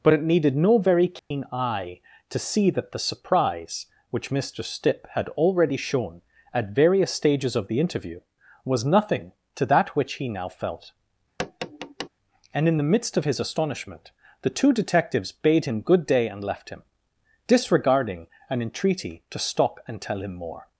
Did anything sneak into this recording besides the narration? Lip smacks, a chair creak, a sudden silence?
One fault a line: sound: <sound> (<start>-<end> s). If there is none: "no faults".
sound: dropout (1.2-1.3 s)
sound: tap (11.4-12.1 s)